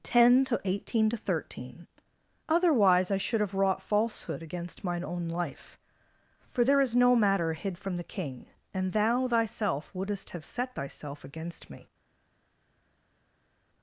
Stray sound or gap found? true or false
false